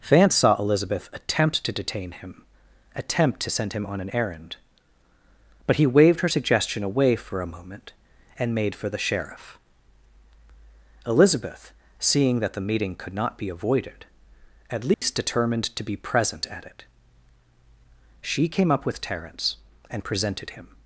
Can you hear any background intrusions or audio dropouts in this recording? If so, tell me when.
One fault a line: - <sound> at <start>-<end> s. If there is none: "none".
- dropout at 14.9-15.0 s